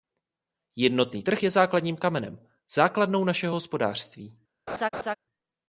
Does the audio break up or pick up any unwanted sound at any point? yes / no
yes